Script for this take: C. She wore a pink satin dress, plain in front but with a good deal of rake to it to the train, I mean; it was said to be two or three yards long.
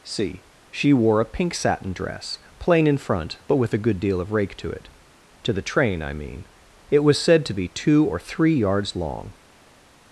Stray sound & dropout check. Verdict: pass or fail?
pass